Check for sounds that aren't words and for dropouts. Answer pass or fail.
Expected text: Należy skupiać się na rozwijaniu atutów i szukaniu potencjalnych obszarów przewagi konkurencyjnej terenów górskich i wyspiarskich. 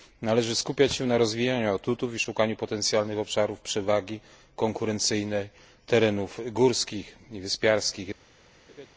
fail